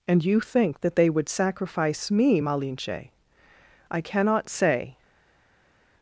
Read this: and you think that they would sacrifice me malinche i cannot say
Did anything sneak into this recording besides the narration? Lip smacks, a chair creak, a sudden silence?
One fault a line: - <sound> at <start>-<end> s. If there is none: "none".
none